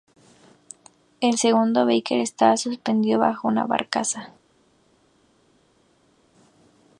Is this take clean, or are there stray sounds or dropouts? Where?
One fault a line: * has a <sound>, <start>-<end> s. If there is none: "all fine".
all fine